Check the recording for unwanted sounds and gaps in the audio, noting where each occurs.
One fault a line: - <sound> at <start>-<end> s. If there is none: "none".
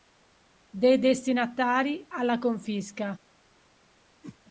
- whoosh at 4.2-4.4 s